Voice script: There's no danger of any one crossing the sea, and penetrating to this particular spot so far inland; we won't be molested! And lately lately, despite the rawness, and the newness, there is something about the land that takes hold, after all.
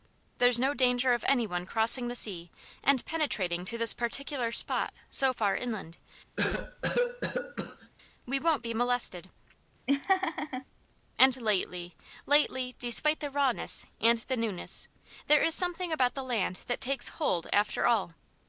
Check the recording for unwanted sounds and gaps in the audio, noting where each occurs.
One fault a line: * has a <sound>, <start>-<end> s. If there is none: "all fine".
* has a cough, 6.4-7.9 s
* has a laugh, 9.9-10.7 s